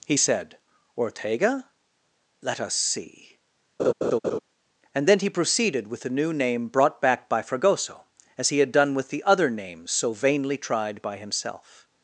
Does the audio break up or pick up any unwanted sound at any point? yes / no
yes